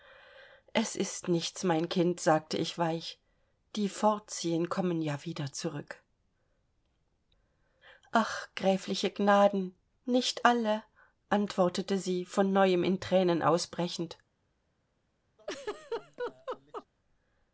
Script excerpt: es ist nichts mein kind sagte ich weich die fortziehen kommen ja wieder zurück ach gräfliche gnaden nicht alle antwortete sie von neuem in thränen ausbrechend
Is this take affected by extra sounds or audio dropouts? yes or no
yes